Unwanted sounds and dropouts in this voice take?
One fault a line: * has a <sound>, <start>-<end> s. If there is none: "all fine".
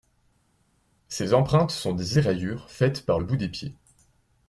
all fine